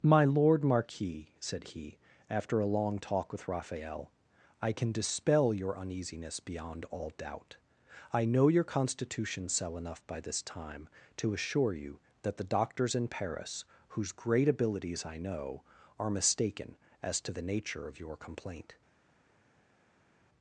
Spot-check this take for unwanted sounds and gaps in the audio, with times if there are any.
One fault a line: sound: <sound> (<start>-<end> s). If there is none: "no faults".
no faults